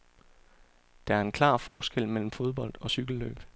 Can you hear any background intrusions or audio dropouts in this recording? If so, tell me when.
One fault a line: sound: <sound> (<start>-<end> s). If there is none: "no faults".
sound: dropout (1.7-1.8 s)